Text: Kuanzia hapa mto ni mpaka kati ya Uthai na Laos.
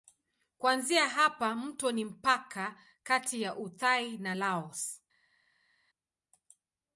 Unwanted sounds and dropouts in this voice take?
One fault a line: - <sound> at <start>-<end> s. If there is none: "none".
none